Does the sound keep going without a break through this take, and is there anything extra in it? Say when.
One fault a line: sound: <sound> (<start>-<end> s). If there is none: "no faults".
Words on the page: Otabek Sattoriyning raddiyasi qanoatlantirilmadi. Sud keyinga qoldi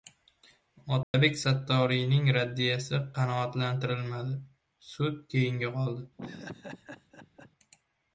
sound: dropout (1.0-1.1 s)
sound: laugh (6.2-7.5 s)